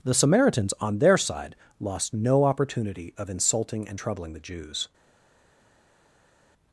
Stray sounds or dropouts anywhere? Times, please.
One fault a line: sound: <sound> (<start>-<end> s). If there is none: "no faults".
no faults